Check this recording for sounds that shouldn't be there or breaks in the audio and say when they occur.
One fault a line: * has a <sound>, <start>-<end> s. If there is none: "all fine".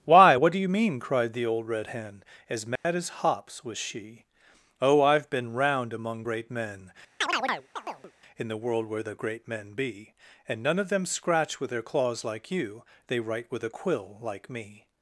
* has a dropout, 2.8-2.8 s
* has a chirp, 7.2-8.1 s